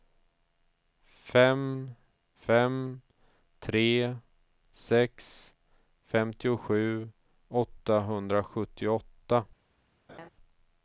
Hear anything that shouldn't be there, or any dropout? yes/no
yes